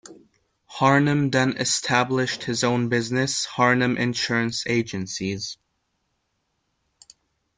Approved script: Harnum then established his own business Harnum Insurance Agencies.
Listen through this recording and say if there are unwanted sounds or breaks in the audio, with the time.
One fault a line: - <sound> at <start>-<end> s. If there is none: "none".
none